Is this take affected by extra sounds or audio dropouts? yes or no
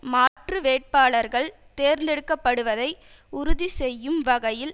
yes